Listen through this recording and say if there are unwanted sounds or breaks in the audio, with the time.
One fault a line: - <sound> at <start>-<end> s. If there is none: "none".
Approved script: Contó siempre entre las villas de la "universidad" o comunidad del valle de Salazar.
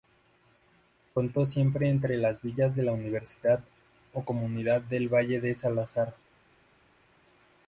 none